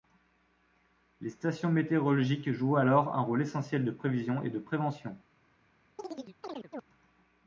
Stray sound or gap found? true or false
true